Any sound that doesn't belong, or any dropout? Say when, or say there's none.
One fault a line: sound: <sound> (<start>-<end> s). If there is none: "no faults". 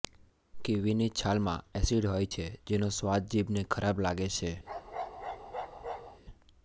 sound: bark (4.6-6.2 s)